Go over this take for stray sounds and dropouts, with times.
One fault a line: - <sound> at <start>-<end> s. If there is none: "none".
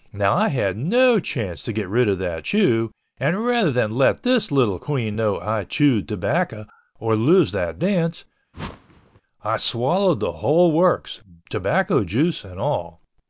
- whoosh at 8.5-9.2 s